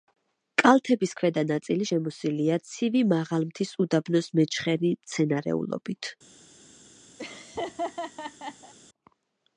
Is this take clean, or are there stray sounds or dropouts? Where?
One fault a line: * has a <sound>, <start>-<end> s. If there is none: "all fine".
* has a laugh, 7.2-8.7 s